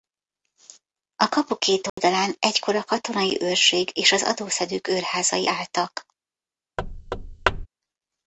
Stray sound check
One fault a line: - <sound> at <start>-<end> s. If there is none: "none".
- dropout at 1.9-2.0 s
- thud at 6.8-7.7 s